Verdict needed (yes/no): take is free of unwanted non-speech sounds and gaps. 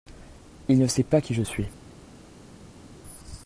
yes